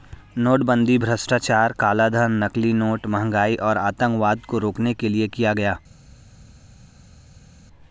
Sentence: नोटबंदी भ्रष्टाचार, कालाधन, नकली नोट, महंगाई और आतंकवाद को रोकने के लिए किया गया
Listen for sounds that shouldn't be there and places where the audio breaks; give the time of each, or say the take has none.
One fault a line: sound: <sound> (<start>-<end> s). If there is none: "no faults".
no faults